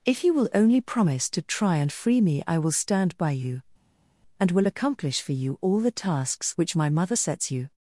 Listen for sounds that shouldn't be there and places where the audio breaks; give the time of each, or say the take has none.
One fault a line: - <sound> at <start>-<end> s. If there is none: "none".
none